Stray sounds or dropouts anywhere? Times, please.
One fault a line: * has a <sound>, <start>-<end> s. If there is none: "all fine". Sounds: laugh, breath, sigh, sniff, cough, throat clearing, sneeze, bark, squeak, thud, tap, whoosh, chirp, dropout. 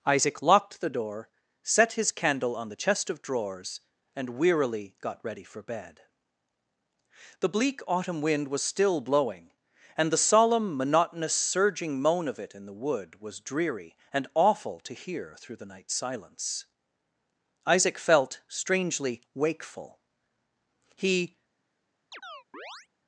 * has a chirp, 22.1-22.9 s